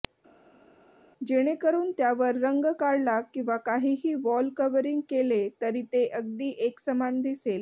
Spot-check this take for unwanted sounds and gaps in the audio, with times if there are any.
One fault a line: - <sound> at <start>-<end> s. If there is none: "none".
none